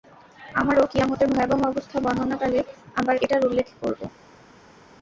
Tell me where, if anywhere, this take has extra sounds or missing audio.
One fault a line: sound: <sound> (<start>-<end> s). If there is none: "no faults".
no faults